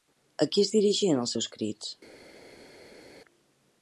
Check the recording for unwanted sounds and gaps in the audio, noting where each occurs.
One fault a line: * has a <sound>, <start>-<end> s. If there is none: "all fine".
all fine